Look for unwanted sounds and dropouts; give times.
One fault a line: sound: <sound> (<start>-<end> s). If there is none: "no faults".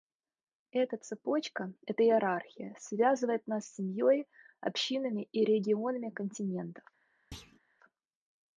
sound: thud (7.3-7.6 s)